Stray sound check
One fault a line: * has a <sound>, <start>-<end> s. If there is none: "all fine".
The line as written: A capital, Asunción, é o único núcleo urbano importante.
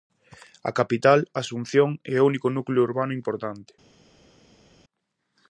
all fine